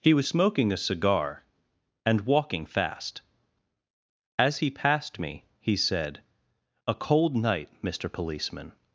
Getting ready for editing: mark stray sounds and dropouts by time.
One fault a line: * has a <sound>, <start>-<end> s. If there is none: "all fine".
all fine